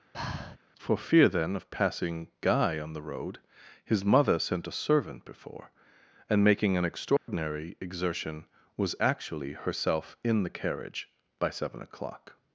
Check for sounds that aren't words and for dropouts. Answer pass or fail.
fail